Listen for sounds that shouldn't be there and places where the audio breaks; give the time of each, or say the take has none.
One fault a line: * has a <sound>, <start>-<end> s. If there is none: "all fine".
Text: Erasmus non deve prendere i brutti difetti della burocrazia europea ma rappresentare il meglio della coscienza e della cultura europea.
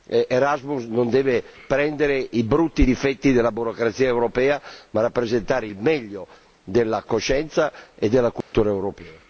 * has a dropout, 8.4-8.5 s